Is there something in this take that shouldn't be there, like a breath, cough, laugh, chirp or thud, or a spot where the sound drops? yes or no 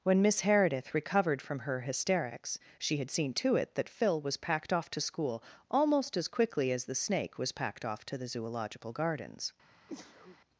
yes